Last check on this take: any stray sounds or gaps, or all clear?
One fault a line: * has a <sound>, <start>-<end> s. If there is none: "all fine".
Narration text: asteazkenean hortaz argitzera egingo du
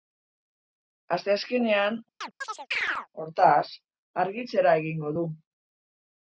* has a chirp, 2.2-3.1 s